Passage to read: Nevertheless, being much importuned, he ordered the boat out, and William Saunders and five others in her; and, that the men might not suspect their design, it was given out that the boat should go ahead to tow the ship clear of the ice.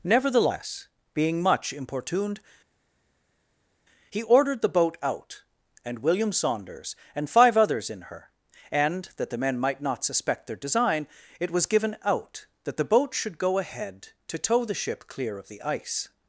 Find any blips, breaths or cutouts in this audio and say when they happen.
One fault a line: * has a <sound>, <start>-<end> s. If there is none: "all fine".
all fine